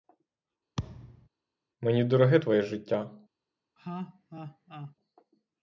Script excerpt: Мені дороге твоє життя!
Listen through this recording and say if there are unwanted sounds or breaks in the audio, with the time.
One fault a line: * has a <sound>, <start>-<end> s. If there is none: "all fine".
* has a thud, 0.8-1.3 s
* has a laugh, 3.8-4.9 s